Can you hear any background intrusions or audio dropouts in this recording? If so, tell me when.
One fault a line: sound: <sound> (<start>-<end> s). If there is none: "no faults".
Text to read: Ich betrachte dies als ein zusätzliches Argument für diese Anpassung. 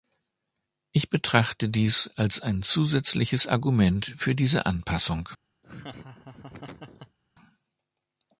sound: laugh (5.6-7.2 s)